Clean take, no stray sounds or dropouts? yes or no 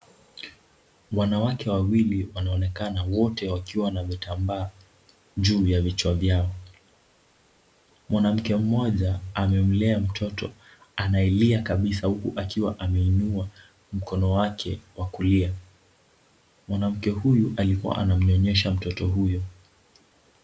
yes